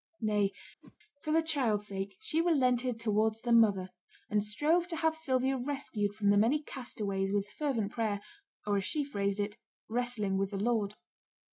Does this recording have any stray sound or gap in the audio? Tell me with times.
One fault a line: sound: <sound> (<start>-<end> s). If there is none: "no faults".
sound: whoosh (0.8-1.0 s)